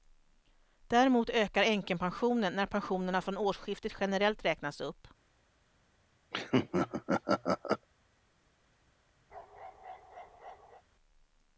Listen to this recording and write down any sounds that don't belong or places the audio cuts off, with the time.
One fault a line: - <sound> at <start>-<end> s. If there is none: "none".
- laugh at 6.3-7.9 s
- bark at 9.3-10.8 s